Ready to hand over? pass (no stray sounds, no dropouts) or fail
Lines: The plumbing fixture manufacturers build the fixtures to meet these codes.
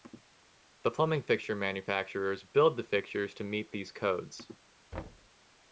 fail